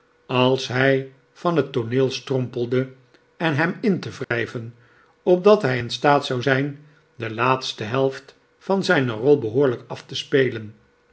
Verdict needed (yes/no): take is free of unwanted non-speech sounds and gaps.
no